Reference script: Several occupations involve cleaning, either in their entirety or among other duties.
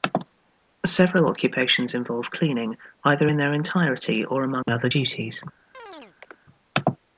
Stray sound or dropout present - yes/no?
yes